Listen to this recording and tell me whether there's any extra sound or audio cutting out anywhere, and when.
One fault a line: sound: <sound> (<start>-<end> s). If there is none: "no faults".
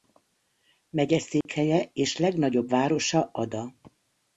sound: dropout (1.4-1.5 s)